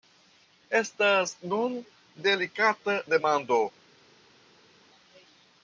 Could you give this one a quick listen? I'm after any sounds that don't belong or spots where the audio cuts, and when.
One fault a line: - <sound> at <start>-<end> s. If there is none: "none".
none